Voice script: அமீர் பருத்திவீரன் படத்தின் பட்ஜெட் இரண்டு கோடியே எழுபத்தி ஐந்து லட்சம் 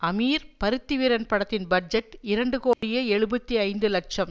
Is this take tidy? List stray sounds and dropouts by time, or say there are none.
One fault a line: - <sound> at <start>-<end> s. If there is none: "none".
- dropout at 2.7-2.8 s